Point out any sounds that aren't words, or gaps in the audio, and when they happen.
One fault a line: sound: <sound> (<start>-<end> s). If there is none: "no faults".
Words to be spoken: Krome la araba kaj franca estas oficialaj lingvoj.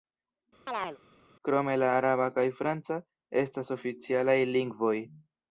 sound: chirp (0.7-1.0 s)